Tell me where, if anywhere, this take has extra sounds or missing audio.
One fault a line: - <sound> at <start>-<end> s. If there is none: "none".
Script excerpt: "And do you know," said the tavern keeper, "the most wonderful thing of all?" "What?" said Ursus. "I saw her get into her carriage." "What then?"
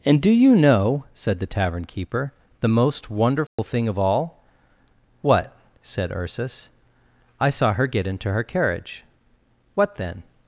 - dropout at 3.5-3.6 s